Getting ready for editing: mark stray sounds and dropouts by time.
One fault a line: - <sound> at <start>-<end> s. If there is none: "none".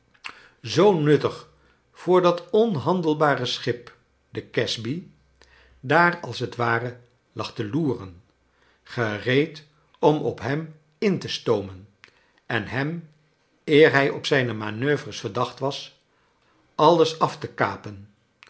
none